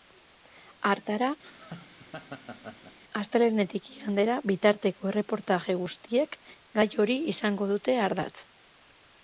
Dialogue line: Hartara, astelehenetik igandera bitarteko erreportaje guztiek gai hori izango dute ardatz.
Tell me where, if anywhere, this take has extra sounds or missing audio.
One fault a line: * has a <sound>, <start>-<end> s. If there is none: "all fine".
* has a laugh, 1.4-3.0 s